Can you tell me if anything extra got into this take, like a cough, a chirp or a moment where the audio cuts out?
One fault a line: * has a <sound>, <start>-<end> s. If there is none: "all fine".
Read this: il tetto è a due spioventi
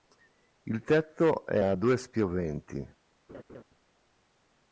* has a laugh, 3.3-3.6 s